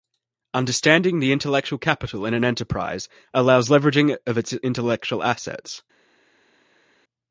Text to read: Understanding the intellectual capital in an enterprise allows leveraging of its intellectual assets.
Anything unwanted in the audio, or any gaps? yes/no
no